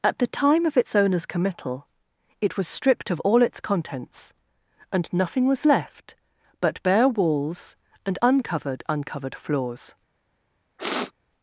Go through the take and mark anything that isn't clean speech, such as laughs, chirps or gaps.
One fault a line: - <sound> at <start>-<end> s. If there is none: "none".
- sniff at 10.8-11.1 s